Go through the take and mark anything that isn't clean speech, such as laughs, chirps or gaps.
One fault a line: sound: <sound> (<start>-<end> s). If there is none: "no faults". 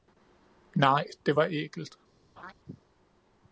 sound: laugh (2.4-2.5 s)